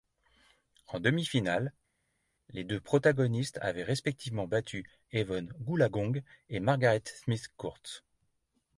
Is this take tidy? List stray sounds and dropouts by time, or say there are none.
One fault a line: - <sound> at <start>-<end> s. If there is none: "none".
none